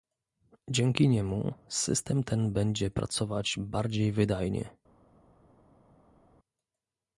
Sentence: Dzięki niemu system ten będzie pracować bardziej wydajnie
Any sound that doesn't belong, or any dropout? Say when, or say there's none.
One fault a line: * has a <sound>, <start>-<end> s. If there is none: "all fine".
all fine